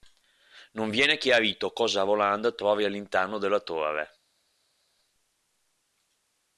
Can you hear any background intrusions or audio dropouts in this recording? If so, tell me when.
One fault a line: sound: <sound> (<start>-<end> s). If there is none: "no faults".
no faults